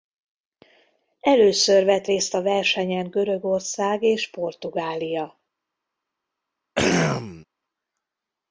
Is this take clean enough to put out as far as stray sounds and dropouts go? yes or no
no